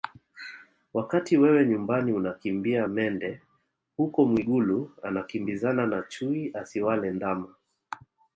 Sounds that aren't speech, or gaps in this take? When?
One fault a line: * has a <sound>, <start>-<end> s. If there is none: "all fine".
all fine